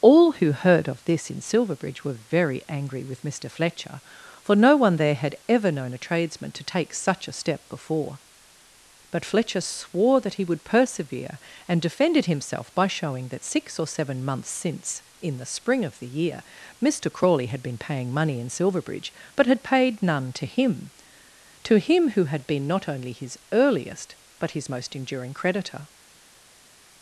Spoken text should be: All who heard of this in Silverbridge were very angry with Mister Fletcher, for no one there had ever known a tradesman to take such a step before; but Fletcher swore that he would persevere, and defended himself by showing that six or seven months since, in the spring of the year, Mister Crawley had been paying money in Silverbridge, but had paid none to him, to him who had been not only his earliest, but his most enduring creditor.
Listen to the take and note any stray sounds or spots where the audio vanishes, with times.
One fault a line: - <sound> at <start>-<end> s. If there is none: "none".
none